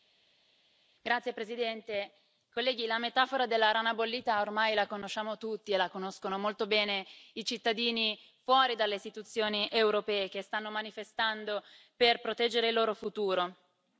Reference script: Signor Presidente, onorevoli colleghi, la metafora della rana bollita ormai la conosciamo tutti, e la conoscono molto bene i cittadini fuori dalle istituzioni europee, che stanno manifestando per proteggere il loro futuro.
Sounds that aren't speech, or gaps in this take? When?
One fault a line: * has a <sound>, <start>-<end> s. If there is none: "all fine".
all fine